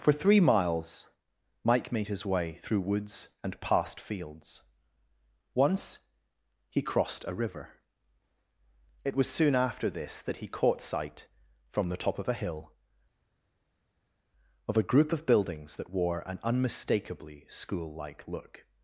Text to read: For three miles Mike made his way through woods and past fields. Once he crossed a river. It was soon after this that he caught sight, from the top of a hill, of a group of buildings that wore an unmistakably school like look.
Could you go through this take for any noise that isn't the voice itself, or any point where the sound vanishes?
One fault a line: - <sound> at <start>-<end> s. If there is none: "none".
none